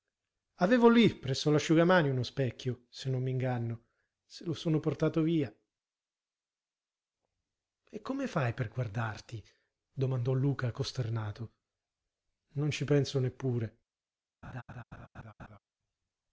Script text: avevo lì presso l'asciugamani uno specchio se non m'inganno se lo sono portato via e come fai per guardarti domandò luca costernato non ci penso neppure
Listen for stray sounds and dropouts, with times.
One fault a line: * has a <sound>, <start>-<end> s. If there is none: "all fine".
* has a laugh, 14.4-15.6 s